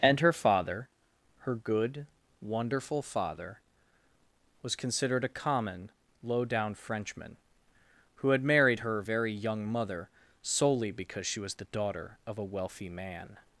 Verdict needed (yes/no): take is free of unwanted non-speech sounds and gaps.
yes